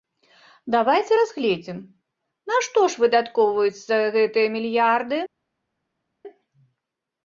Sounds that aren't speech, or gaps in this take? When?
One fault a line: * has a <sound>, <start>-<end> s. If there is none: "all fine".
all fine